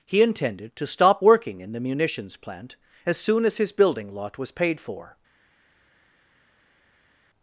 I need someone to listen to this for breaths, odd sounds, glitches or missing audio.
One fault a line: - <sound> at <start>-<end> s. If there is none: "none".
none